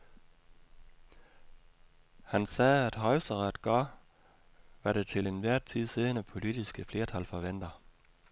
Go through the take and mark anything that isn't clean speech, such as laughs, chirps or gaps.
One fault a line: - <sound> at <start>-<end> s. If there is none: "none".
none